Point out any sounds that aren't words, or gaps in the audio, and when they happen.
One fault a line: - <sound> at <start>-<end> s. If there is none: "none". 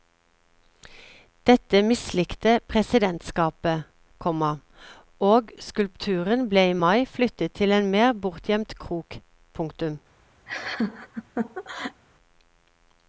- laugh at 10.5-12.0 s